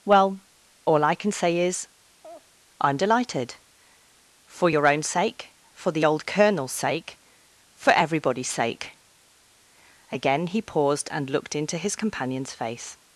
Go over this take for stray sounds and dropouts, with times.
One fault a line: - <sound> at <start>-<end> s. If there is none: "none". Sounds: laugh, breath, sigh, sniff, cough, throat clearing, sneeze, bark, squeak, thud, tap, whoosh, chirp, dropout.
- laugh at 2.2-2.5 s